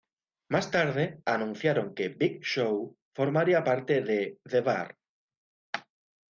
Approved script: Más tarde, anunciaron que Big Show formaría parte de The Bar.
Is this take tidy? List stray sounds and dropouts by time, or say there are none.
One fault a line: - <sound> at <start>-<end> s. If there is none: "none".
none